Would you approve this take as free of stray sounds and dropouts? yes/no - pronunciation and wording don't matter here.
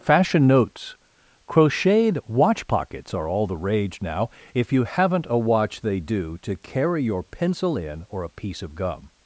yes